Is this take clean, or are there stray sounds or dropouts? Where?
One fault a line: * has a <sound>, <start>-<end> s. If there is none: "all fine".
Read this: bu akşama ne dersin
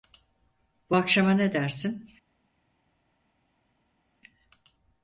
all fine